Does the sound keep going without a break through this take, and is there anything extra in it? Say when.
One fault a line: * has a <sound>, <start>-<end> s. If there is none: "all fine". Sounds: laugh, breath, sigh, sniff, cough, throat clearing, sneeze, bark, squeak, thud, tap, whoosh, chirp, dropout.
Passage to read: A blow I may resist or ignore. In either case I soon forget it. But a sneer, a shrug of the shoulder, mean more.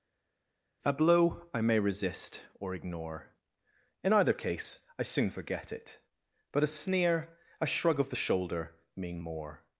all fine